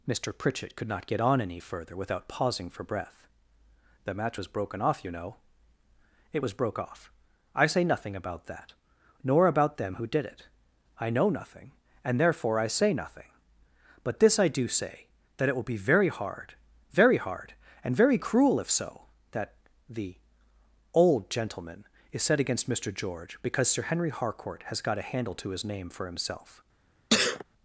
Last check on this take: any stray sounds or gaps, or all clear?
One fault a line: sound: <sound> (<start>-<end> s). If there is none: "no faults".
sound: sneeze (27.1-27.4 s)